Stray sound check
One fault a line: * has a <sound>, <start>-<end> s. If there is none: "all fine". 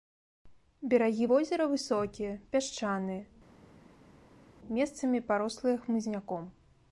all fine